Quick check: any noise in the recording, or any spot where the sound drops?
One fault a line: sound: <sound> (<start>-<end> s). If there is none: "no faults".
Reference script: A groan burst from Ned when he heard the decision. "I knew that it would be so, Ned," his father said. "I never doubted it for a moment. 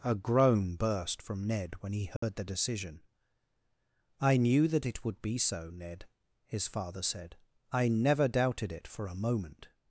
sound: dropout (2.2-2.2 s)